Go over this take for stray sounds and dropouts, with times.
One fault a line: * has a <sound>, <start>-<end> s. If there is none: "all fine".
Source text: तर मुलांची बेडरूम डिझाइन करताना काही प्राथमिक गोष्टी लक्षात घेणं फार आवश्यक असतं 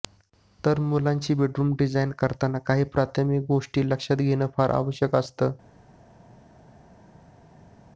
all fine